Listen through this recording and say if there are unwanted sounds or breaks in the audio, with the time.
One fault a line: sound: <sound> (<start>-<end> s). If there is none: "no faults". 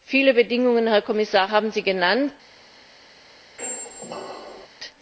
sound: squeak (3.6-4.7 s)